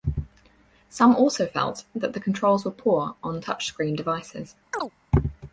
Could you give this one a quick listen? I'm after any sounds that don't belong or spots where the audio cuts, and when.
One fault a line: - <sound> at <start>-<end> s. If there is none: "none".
- chirp at 4.7-4.9 s